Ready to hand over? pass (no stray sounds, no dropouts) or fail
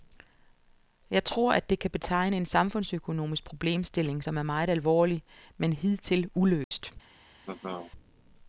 fail